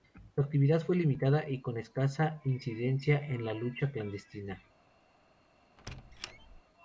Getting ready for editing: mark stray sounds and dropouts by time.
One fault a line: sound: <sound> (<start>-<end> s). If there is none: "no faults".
sound: squeak (5.8-6.6 s)